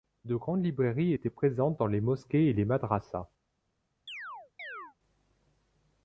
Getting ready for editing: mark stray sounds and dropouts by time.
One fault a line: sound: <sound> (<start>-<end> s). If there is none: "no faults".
sound: chirp (4.1-4.9 s)